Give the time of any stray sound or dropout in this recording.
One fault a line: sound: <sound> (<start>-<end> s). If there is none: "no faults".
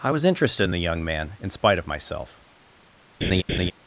sound: laugh (3.2-3.7 s)